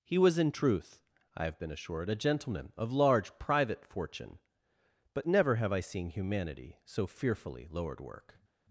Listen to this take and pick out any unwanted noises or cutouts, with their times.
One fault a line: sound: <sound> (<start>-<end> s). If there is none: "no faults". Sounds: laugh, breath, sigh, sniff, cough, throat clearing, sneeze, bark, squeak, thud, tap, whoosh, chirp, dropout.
no faults